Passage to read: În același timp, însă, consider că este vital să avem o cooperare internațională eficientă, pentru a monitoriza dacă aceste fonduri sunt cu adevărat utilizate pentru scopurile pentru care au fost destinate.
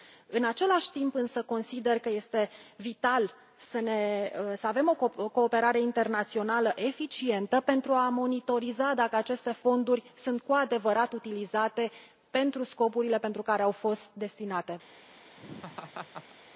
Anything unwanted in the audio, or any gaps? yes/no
yes